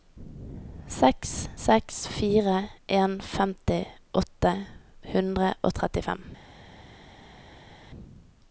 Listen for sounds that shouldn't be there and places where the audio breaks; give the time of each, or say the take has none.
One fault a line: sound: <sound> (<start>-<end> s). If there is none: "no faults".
no faults